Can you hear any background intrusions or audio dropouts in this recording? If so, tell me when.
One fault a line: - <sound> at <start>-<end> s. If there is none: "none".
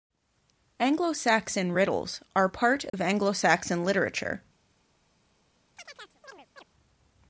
- dropout at 2.9-2.9 s
- chirp at 5.8-6.6 s